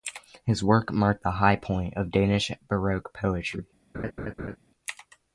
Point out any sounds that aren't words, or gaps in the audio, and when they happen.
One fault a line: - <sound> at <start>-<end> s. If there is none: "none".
- laugh at 3.9-4.6 s